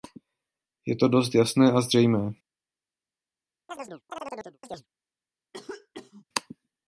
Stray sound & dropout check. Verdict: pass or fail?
fail